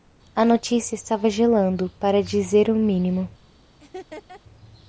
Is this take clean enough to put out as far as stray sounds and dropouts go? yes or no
no